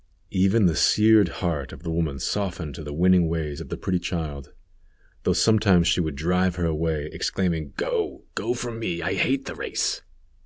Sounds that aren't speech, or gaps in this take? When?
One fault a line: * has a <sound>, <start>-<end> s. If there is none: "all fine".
all fine